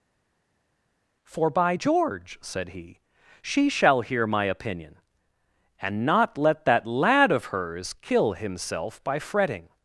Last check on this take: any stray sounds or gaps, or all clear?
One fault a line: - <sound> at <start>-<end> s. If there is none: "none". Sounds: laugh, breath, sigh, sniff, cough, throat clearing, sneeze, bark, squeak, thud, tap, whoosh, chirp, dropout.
none